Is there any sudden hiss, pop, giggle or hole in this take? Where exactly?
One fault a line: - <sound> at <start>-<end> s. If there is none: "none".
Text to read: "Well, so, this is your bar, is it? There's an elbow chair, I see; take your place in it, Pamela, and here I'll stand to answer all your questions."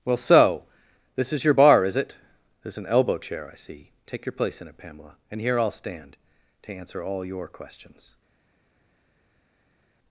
none